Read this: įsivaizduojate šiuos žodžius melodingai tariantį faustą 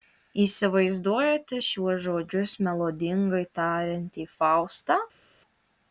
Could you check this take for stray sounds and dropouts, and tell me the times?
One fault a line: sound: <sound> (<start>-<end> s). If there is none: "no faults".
no faults